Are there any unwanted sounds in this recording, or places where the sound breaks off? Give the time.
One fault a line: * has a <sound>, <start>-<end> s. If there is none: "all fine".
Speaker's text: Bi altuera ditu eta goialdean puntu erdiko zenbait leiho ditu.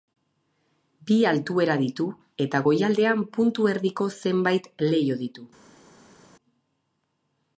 all fine